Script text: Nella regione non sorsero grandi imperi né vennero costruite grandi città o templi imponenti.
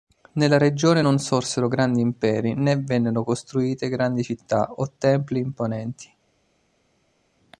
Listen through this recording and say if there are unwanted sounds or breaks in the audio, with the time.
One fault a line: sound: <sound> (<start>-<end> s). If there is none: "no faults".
no faults